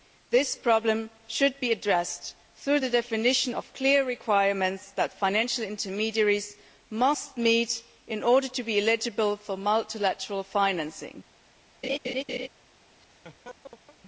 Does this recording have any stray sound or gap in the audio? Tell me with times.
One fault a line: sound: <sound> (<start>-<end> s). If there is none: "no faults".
sound: laugh (11.8-12.5 s)
sound: laugh (13.0-14.0 s)